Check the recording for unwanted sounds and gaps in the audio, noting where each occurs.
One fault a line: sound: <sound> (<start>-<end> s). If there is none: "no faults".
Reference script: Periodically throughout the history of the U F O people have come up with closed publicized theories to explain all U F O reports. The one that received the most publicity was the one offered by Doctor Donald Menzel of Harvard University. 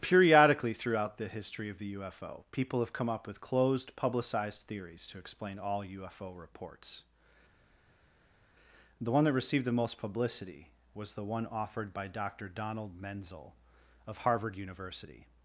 no faults